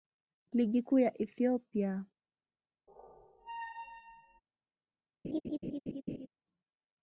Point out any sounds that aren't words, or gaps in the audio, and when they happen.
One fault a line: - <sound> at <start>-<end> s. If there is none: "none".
- squeak at 2.9-4.4 s
- laugh at 5.2-6.3 s